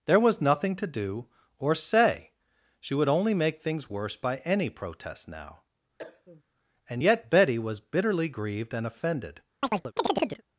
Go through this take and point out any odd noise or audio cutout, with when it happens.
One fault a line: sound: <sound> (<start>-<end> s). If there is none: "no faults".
sound: cough (6.0-6.4 s)
sound: chirp (9.6-10.4 s)